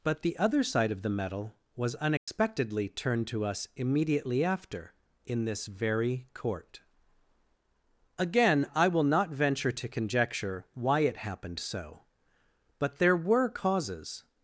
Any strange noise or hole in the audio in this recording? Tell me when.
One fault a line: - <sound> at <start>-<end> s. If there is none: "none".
- dropout at 2.2-2.3 s